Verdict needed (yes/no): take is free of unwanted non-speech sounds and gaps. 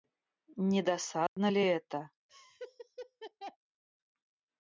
no